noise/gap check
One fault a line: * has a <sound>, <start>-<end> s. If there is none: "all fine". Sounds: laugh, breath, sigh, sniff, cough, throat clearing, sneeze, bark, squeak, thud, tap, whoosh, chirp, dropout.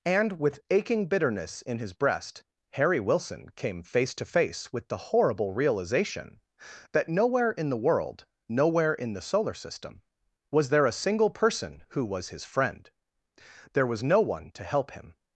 all fine